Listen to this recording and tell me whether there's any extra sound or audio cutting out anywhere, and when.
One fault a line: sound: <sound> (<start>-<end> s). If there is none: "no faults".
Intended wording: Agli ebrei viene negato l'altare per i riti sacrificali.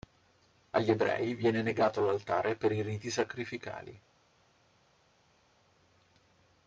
no faults